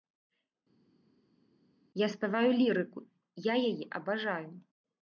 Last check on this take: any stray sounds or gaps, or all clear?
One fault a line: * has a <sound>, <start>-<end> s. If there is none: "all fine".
all fine